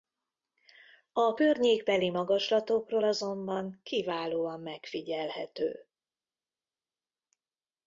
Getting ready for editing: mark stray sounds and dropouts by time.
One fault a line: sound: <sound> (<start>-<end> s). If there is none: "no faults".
no faults